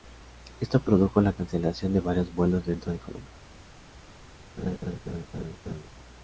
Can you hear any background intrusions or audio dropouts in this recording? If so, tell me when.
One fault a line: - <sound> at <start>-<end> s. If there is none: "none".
- laugh at 4.6-5.9 s